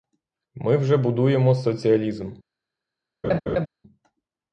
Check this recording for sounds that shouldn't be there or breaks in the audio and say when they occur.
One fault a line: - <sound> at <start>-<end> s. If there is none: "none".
- laugh at 3.2-3.7 s